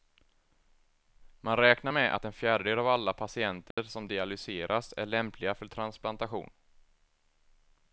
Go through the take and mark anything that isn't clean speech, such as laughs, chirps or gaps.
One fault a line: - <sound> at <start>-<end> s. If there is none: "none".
- dropout at 3.7-3.8 s